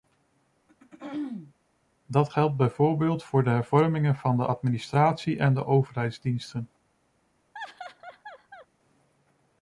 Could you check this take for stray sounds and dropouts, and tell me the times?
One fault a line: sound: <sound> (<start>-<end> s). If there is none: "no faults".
sound: throat clearing (0.7-1.5 s)
sound: laugh (7.5-8.7 s)